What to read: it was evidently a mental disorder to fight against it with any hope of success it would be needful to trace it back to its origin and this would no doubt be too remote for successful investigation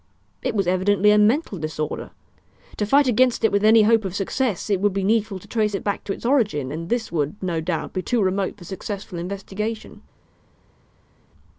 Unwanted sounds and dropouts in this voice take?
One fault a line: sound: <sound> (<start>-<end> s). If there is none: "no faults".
no faults